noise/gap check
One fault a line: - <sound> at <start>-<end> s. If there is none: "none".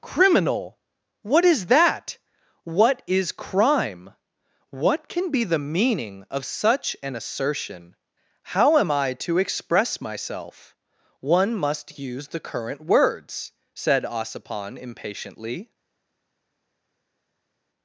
none